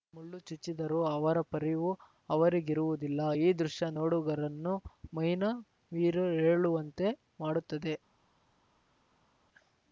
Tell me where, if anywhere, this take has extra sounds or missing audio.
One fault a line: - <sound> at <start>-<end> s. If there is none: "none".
none